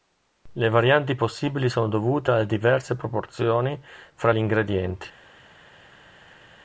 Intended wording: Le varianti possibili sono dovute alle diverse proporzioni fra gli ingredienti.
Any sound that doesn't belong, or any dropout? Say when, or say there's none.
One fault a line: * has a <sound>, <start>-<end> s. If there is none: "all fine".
all fine